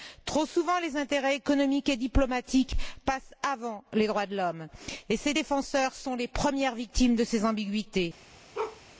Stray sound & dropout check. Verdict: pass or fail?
fail